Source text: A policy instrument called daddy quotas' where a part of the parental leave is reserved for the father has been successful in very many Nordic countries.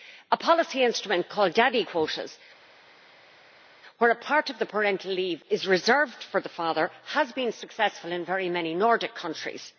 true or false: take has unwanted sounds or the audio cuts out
false